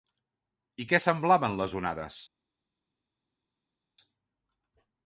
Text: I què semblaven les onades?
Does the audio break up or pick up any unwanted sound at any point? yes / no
no